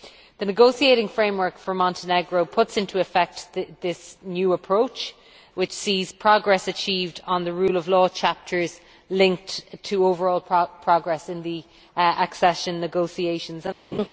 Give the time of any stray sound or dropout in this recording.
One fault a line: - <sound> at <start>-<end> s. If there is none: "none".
- laugh at 13.9-14.1 s